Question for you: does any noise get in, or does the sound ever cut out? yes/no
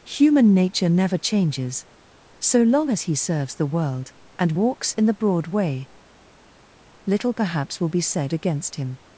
no